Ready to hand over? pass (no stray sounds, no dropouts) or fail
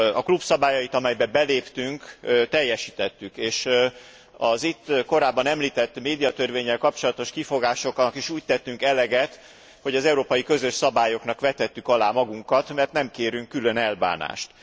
pass